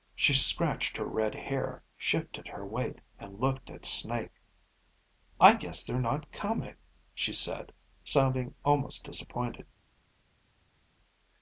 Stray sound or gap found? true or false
false